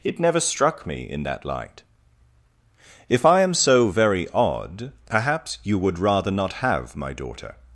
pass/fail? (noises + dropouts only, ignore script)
pass